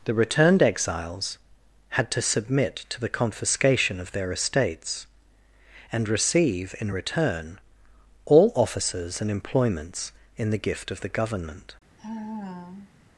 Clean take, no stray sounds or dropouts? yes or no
no